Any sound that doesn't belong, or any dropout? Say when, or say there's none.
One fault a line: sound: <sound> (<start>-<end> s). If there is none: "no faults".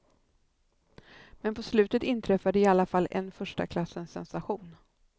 no faults